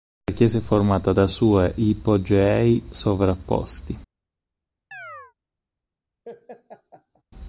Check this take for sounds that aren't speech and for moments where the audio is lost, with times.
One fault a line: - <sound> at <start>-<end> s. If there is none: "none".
- chirp at 4.9-5.3 s
- laugh at 6.2-7.2 s